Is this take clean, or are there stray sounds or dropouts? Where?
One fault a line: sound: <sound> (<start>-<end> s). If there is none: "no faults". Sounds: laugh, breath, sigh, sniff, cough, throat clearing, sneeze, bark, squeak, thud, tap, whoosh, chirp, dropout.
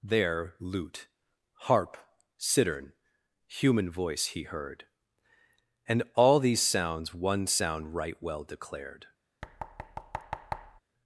sound: thud (9.4-10.8 s)